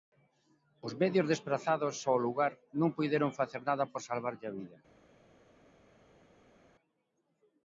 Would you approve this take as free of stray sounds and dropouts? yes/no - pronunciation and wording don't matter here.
yes